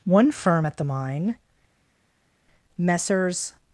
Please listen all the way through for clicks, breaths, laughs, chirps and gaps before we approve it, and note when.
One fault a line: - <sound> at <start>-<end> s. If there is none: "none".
none